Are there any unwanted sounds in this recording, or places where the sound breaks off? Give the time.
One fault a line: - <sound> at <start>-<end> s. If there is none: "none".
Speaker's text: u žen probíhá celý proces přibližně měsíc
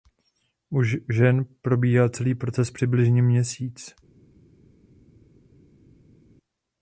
none